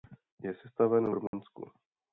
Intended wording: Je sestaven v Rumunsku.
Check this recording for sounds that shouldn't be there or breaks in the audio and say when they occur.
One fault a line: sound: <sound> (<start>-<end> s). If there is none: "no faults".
sound: dropout (1.3-1.3 s)